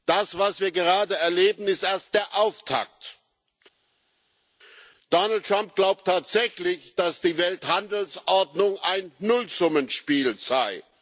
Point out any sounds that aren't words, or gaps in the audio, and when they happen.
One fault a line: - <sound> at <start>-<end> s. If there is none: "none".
none